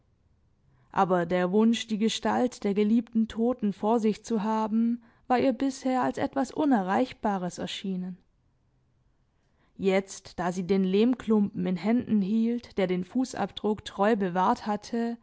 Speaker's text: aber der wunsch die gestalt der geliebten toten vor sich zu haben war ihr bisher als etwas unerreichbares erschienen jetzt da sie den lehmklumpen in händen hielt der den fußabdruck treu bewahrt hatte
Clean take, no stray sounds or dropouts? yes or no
yes